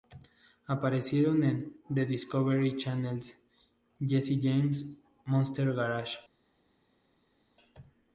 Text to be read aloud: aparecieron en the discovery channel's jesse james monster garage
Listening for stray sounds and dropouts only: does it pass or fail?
pass